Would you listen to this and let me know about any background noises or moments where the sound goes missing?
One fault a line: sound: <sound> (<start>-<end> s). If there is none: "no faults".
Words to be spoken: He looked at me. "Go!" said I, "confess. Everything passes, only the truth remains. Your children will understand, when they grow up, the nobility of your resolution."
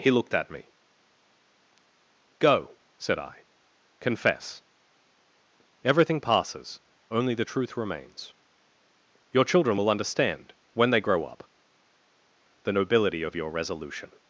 no faults